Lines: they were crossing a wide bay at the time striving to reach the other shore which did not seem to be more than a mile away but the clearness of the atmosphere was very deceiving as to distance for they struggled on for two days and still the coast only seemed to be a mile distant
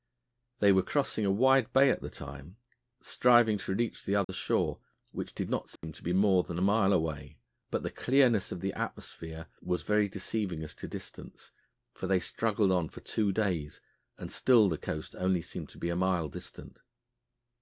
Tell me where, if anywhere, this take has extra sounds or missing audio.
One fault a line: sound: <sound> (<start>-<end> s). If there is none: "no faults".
sound: dropout (4.2-4.3 s)
sound: dropout (5.8-5.8 s)